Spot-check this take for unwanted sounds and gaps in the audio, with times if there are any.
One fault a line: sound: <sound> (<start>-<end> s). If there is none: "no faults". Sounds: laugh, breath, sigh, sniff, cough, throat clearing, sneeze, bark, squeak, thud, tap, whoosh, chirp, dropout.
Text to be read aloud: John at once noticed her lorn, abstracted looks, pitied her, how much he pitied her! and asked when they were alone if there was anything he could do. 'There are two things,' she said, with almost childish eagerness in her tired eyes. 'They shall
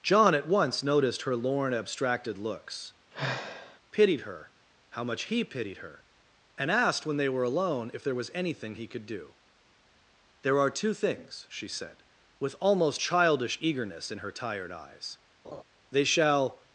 sound: sigh (3.1-3.8 s)
sound: laugh (15.4-15.6 s)